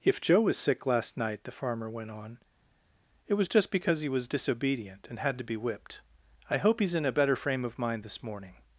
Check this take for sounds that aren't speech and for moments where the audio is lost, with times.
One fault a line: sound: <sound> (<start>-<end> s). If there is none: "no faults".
no faults